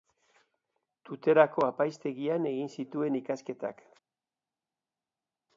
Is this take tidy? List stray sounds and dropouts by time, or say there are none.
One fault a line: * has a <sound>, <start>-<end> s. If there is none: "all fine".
all fine